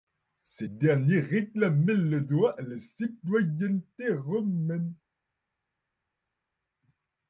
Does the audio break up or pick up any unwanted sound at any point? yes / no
no